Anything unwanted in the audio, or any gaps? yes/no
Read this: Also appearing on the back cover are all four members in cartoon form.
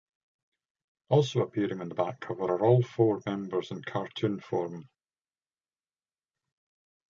no